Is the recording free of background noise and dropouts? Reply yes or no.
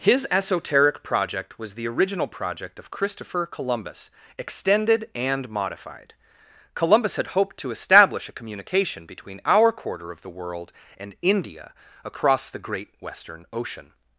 yes